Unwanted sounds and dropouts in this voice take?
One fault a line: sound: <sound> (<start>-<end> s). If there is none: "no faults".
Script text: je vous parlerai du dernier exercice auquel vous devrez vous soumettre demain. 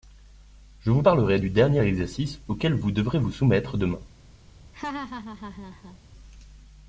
sound: laugh (4.7-6.0 s)